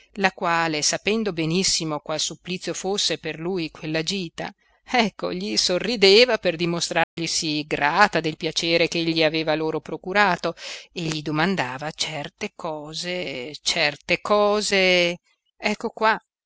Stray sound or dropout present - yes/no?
yes